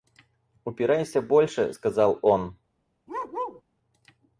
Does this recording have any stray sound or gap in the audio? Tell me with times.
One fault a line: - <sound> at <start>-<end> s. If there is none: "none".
- bark at 3.1-3.6 s